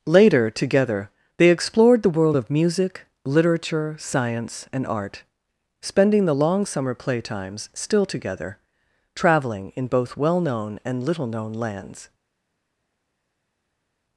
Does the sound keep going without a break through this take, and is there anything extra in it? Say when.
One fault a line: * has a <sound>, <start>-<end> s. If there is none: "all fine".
all fine